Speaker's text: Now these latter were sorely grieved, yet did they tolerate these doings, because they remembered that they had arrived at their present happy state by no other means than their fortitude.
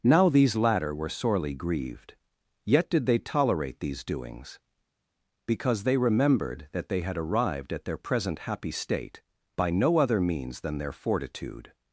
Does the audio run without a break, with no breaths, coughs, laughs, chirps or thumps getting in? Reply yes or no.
yes